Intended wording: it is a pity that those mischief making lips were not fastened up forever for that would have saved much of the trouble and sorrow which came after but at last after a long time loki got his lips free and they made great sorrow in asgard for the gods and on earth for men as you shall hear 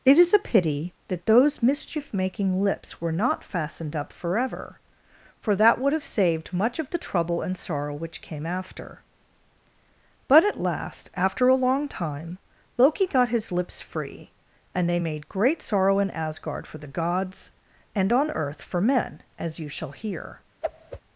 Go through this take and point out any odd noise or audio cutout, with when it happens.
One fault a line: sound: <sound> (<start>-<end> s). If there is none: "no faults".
sound: whoosh (20.6-21.0 s)